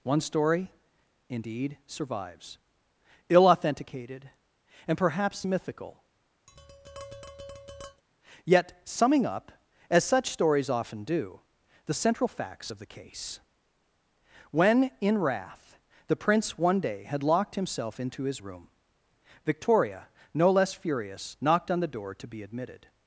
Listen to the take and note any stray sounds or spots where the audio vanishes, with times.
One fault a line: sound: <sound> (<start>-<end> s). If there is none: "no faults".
sound: tap (6.5-8.0 s)